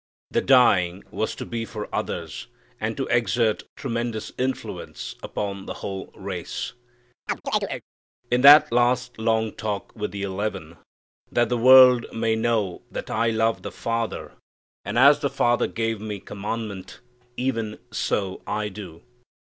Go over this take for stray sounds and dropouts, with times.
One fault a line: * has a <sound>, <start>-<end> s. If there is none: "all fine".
* has a chirp, 7.3-7.8 s